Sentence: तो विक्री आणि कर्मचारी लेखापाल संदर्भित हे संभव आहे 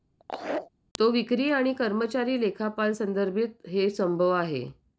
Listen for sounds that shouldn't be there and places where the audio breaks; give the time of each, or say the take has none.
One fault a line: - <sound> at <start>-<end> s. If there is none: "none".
- laugh at 0.2-0.7 s